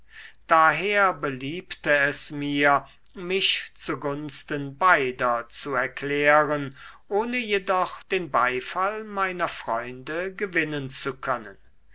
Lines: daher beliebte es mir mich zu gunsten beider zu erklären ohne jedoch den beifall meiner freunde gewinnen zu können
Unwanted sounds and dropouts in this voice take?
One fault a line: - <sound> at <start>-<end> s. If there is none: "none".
none